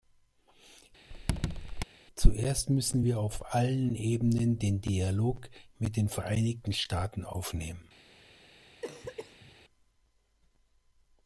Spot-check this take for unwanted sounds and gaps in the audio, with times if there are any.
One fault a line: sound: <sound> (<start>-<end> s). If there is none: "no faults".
sound: squeak (1.1-1.8 s)
sound: cough (8.8-9.6 s)